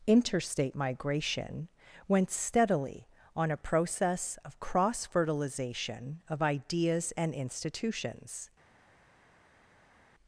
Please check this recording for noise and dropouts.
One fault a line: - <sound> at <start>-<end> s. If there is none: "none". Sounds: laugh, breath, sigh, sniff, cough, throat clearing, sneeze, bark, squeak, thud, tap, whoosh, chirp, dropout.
none